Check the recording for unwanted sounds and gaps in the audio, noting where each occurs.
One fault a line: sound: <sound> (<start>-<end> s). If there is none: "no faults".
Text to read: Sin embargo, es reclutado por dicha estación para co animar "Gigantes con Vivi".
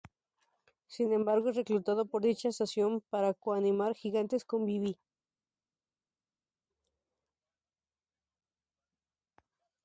no faults